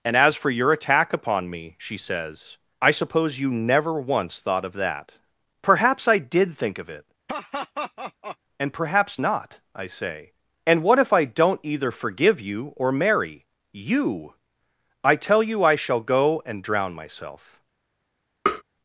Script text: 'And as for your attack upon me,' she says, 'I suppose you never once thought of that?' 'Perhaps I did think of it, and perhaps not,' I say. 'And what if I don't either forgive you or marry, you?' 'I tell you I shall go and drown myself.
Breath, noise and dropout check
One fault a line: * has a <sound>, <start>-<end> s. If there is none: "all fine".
* has a laugh, 7.3-8.4 s
* has a tap, 18.5-18.6 s